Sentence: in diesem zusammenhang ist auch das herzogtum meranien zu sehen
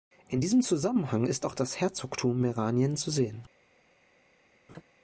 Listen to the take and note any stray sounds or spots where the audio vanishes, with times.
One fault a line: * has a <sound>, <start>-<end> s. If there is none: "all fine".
* has a laugh, 4.7-4.8 s